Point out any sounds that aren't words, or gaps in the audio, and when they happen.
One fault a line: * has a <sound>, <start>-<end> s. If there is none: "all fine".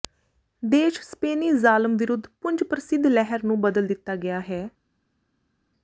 all fine